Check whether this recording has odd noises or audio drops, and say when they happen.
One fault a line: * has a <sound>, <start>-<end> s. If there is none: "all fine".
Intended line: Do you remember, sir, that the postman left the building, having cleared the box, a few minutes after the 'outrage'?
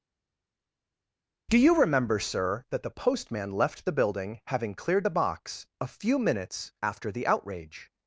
all fine